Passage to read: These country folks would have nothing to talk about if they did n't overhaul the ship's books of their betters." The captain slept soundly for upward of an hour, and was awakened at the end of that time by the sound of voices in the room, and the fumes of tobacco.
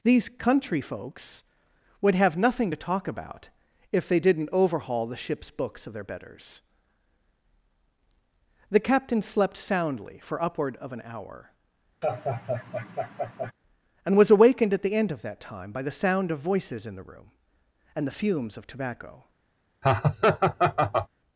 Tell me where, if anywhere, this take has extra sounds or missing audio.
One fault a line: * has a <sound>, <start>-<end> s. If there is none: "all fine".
* has a laugh, 12.0-13.5 s
* has a laugh, 19.8-21.1 s